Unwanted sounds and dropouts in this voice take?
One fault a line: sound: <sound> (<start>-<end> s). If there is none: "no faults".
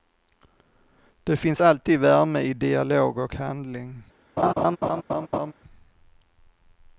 sound: laugh (4.4-5.5 s)